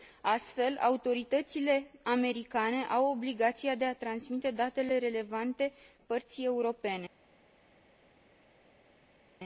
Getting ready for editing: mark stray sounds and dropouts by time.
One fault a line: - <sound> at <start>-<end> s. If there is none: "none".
none